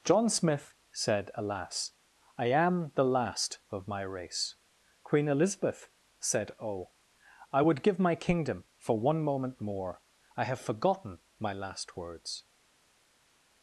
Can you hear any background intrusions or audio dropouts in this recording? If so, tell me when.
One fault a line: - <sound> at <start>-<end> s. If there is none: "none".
none